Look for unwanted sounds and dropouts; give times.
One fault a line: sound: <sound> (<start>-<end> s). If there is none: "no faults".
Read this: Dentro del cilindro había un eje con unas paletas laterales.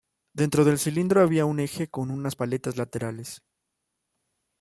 no faults